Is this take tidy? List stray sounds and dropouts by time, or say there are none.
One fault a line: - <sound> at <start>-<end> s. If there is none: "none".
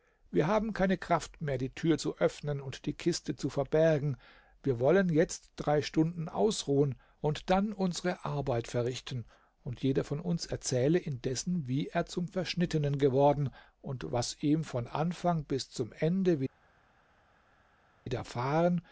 none